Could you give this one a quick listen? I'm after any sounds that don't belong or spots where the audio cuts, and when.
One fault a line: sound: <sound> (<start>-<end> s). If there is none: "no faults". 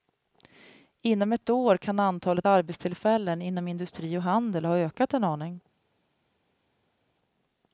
no faults